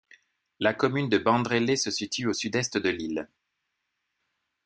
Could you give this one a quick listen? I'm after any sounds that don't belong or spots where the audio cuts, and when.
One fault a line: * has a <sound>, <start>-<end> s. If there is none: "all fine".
all fine